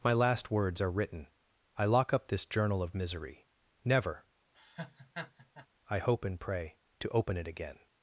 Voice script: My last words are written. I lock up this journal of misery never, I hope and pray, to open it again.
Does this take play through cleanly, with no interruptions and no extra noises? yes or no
no